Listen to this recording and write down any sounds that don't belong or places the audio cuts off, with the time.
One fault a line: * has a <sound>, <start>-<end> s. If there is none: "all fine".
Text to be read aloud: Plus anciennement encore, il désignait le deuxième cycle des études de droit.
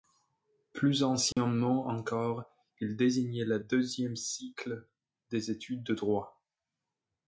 * has a dropout, 1.3-1.4 s